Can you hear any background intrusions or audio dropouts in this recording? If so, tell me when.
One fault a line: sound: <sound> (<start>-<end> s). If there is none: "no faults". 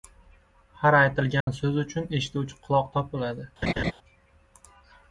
sound: dropout (1.4-1.5 s)
sound: laugh (3.6-3.9 s)